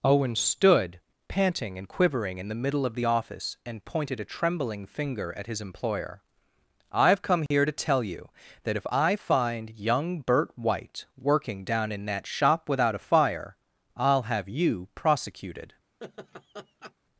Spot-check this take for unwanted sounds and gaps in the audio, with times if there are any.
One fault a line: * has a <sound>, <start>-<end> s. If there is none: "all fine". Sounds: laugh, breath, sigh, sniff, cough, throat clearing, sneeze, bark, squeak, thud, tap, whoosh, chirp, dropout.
* has a dropout, 7.5-7.5 s
* has a laugh, 16.0-16.9 s